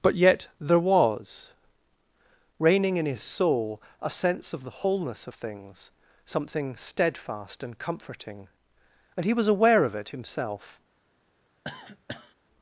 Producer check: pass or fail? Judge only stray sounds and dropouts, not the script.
fail